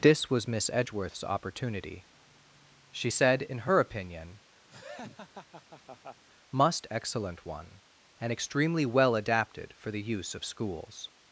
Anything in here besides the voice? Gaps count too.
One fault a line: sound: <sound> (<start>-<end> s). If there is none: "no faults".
sound: laugh (4.7-6.2 s)